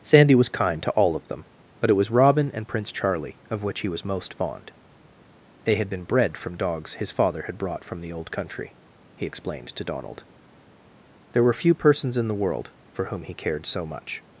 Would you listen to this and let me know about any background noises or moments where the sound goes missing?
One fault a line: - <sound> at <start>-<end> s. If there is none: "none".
none